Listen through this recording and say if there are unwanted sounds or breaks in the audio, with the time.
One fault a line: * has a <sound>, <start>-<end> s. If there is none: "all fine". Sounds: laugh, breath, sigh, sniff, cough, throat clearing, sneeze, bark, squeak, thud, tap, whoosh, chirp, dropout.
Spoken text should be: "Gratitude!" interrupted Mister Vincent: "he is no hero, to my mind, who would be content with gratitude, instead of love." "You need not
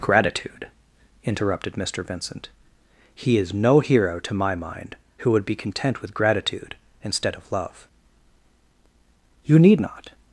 all fine